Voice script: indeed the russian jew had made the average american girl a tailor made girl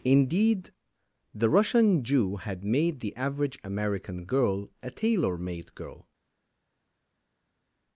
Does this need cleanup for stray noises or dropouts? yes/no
no